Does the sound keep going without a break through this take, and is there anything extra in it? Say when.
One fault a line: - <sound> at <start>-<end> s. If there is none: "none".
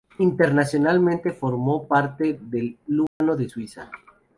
- dropout at 3.1-3.2 s